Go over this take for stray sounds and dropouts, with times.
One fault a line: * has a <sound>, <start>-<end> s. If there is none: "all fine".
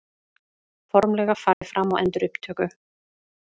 * has a dropout, 1.5-1.6 s